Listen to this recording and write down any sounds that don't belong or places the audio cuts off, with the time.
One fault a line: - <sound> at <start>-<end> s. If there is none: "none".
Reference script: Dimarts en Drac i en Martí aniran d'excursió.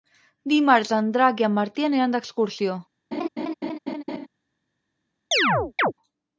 - laugh at 3.1-4.3 s
- chirp at 5.3-5.9 s